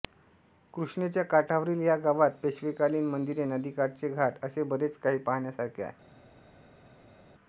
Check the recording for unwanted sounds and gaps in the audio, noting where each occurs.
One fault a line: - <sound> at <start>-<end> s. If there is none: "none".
none